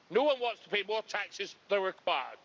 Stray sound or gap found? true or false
true